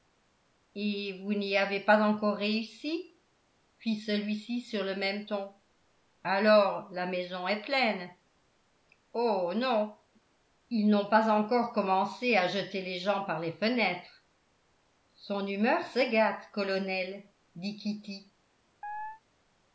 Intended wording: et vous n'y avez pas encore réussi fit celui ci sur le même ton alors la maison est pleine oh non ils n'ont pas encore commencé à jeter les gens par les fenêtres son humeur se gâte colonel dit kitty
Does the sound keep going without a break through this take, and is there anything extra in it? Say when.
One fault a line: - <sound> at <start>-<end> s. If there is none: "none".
- chirp at 18.8-19.2 s